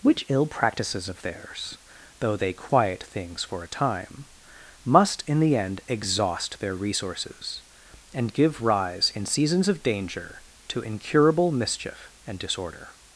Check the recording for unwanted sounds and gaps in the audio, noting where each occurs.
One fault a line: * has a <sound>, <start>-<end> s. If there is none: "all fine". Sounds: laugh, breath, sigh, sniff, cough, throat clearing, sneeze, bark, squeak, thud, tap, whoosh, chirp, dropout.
all fine